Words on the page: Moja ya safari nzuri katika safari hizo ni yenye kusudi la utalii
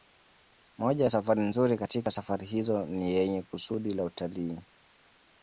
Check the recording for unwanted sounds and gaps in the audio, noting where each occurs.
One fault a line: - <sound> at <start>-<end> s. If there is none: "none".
none